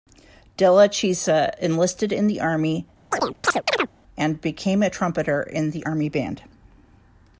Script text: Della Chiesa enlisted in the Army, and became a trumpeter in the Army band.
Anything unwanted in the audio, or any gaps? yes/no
yes